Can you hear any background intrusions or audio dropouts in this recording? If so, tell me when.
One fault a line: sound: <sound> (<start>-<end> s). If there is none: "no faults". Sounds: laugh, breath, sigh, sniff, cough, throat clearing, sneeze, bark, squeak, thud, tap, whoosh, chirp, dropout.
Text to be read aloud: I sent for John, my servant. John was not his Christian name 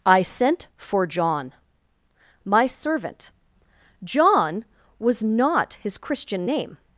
no faults